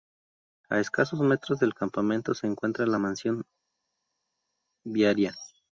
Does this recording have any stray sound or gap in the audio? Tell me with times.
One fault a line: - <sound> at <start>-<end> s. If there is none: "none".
none